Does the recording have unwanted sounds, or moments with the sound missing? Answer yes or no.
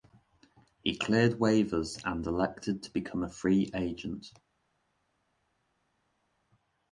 no